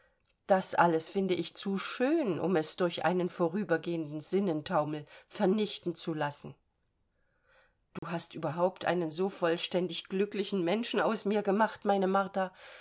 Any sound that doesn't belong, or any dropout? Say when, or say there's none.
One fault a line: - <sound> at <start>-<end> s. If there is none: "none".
- dropout at 8.0-8.0 s